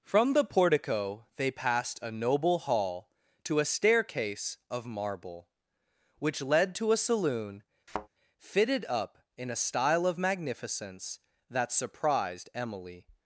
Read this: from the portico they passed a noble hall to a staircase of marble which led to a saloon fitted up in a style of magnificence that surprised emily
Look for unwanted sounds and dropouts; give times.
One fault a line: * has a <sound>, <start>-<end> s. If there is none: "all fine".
* has a thud, 7.9-8.1 s